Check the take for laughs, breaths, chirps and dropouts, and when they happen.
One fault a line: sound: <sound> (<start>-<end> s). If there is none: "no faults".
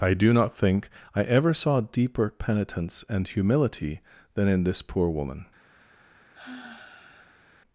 sound: sigh (6.3-7.5 s)